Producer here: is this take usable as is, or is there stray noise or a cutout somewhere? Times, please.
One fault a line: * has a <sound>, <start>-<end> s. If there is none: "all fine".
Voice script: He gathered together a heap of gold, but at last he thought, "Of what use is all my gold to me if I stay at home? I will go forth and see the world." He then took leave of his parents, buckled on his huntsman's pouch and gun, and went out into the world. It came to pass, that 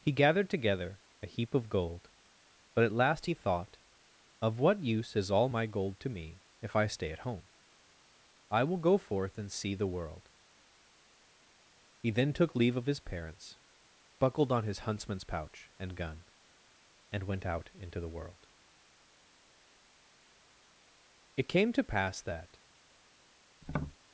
* has a tap, 23.6-24.0 s